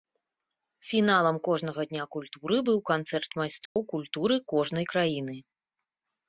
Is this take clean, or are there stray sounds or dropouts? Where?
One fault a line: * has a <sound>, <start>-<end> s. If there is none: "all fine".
* has a dropout, 3.7-3.8 s